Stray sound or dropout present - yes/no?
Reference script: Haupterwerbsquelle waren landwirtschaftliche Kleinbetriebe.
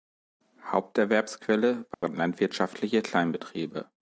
yes